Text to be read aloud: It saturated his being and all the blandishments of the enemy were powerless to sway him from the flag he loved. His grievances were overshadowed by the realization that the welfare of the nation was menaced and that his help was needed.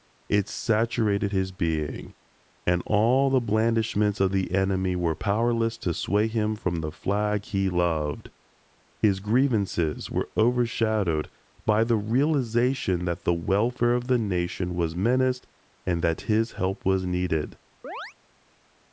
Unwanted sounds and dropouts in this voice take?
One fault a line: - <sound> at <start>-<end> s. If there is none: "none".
- chirp at 17.8-18.1 s